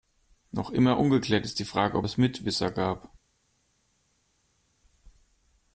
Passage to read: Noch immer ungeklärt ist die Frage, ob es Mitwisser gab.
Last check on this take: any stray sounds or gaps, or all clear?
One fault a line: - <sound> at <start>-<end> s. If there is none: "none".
none